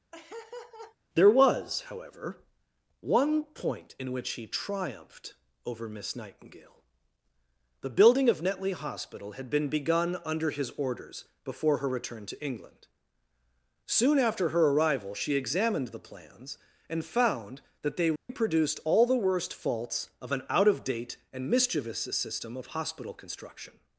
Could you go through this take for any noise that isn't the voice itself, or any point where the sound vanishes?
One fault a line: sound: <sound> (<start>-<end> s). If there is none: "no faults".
sound: laugh (0.1-1.0 s)
sound: dropout (18.2-18.3 s)